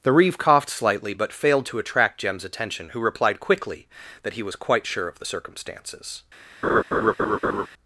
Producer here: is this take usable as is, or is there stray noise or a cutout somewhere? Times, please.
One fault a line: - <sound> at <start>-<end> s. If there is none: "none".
- laugh at 6.6-7.7 s